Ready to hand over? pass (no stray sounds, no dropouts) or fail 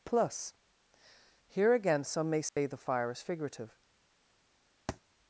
fail